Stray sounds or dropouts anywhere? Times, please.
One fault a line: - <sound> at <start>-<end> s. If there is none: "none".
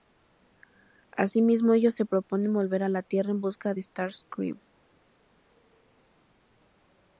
none